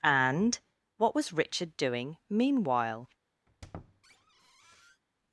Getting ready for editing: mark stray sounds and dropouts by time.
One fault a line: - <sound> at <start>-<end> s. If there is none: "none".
- squeak at 3.5-5.0 s